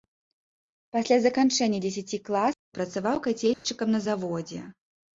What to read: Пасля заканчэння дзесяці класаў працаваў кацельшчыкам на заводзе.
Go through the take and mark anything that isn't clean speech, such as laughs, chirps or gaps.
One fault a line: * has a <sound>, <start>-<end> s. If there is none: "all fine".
* has a dropout, 3.5-3.6 s